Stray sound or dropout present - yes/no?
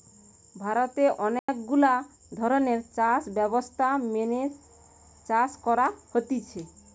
yes